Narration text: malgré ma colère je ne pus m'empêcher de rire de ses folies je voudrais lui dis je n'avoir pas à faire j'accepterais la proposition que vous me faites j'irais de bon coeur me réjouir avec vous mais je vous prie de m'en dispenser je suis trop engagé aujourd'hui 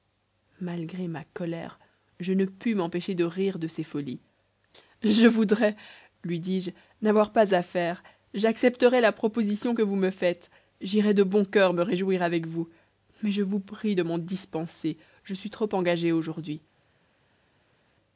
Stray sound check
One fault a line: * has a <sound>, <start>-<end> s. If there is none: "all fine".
all fine